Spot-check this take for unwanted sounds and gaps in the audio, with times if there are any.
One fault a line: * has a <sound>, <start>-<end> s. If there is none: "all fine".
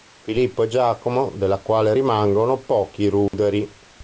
* has a dropout, 3.3-3.3 s